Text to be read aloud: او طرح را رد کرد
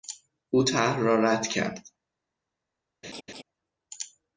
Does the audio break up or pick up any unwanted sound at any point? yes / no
yes